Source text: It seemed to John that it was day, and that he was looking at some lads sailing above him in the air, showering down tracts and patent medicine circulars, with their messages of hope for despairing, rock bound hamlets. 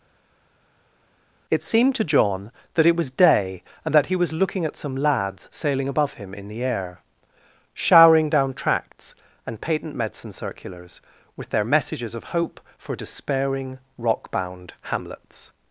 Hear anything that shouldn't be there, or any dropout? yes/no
no